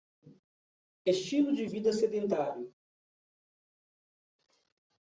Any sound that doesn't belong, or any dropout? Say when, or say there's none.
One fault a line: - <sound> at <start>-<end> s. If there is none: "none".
none